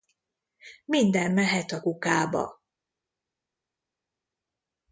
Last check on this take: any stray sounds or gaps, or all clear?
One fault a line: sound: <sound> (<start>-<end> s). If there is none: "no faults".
no faults